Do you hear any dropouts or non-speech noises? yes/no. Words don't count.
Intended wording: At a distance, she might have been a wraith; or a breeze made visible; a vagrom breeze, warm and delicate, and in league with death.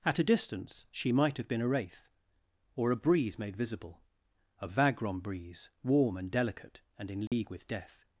yes